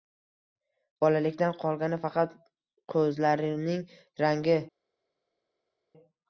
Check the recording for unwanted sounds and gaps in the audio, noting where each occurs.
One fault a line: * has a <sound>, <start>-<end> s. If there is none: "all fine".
all fine